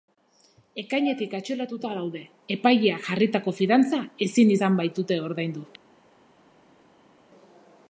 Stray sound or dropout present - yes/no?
no